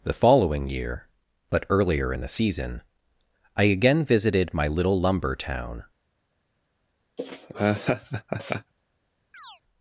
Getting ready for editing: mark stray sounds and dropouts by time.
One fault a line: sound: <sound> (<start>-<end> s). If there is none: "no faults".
sound: laugh (7.2-8.7 s)
sound: chirp (9.3-9.6 s)